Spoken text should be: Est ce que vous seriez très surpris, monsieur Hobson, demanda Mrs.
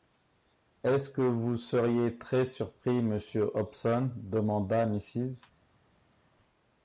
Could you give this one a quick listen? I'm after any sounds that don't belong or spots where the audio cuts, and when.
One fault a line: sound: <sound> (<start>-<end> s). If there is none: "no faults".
no faults